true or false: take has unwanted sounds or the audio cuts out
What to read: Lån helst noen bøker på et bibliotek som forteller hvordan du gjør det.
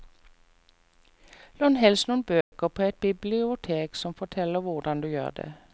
true